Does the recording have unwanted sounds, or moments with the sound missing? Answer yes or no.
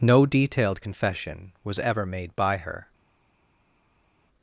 no